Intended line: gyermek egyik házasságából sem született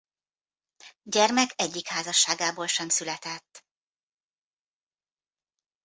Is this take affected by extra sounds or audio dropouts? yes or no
no